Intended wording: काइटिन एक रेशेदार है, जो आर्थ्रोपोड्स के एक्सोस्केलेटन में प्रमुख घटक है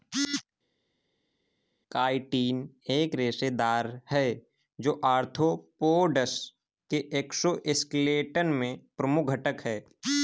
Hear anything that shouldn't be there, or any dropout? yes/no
no